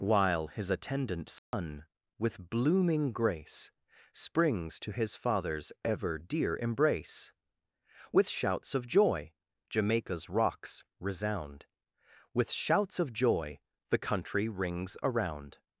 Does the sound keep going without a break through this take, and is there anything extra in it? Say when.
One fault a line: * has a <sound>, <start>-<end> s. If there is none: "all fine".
* has a dropout, 1.4-1.5 s